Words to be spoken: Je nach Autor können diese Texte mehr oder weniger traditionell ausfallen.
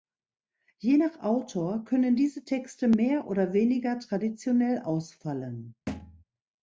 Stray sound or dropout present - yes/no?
yes